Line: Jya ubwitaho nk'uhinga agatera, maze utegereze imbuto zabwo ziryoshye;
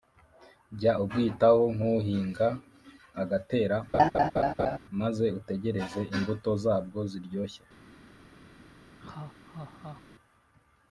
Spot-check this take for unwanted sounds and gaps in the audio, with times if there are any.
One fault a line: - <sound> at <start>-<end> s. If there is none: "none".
- laugh at 3.9-4.8 s
- laugh at 9.0-10.0 s